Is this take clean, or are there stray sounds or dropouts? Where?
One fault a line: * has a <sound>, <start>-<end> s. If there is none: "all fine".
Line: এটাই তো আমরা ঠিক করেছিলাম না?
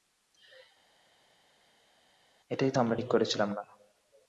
all fine